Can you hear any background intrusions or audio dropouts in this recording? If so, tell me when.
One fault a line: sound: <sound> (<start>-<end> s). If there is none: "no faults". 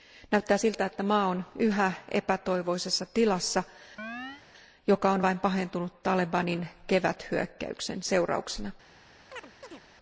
sound: chirp (4.0-4.4 s)
sound: chirp (9.3-9.8 s)